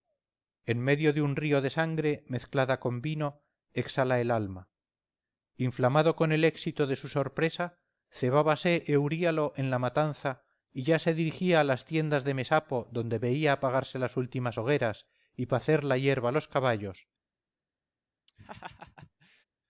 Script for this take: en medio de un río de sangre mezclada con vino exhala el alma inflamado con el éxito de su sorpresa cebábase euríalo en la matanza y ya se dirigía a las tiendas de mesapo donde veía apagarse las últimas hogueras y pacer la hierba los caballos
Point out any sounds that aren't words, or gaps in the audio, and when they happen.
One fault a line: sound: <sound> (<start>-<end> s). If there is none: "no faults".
sound: laugh (18.3-19.4 s)